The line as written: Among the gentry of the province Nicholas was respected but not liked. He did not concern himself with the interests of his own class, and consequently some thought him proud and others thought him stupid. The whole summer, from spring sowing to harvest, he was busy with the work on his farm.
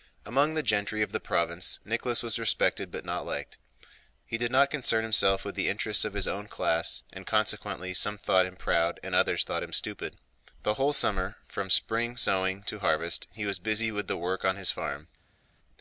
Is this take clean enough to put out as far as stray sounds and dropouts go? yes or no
yes